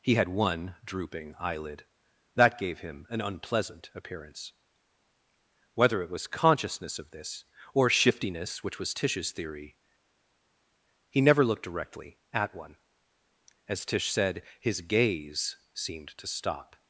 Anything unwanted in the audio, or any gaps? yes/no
no